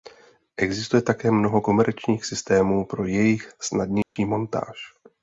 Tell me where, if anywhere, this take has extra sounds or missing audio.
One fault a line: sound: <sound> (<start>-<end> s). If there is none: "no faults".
sound: dropout (4.0-4.2 s)